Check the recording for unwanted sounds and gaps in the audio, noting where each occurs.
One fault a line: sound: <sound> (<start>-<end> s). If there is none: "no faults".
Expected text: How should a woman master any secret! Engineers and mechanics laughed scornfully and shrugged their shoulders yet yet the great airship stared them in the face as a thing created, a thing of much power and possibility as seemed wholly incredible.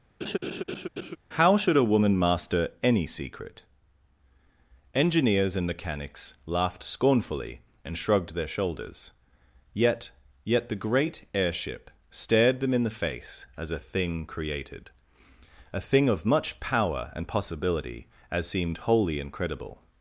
sound: laugh (0.2-1.2 s)